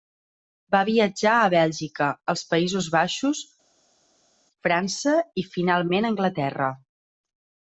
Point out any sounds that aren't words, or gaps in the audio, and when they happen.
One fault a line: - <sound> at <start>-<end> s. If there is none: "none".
none